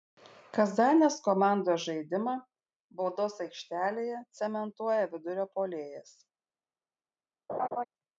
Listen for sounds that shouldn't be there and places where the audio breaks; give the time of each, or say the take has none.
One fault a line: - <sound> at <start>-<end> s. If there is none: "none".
- laugh at 7.5-7.8 s